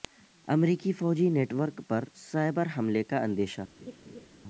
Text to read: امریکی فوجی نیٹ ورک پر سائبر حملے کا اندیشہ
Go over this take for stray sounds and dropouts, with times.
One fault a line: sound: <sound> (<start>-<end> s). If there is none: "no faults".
sound: laugh (3.8-4.3 s)